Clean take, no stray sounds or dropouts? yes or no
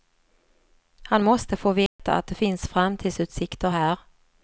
no